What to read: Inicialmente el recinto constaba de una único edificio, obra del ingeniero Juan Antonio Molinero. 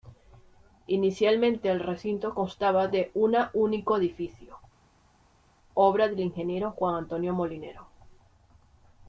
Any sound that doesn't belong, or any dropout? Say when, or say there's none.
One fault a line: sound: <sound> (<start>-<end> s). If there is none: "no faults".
no faults